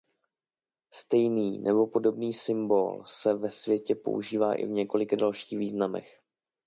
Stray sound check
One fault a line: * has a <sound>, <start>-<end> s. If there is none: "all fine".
all fine